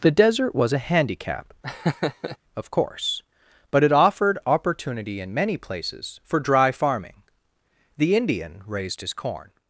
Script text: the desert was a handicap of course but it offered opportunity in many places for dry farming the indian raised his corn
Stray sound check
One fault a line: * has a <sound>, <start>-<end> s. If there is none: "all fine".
* has a laugh, 1.6-2.4 s